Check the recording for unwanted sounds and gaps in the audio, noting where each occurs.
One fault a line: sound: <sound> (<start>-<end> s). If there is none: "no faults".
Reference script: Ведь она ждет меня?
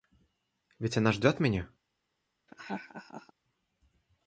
sound: laugh (2.5-3.3 s)